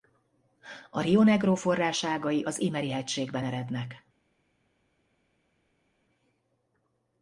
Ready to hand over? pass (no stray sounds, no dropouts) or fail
pass